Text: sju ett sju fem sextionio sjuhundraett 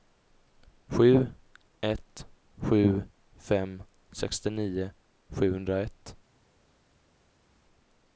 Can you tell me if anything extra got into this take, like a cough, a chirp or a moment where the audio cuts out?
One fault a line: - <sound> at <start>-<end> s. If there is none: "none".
none